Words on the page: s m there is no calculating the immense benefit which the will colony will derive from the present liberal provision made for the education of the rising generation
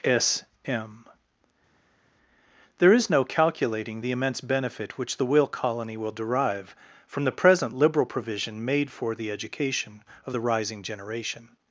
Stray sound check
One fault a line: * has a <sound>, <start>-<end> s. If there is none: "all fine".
all fine